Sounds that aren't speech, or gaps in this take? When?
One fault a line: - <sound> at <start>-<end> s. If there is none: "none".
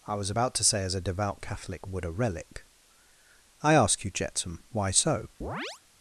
- chirp at 5.4-5.8 s